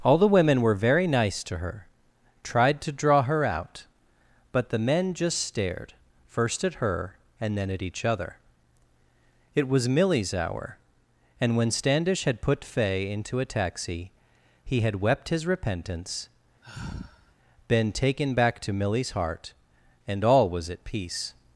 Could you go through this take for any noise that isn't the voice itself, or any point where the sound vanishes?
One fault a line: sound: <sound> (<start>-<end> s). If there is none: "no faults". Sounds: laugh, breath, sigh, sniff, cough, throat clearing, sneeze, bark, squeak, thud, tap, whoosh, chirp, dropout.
sound: sigh (16.6-17.3 s)